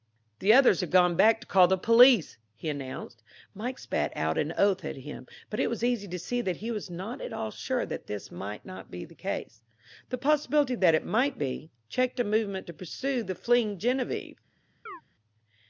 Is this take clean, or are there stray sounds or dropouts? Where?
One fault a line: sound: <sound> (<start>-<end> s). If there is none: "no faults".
sound: chirp (14.9-15.0 s)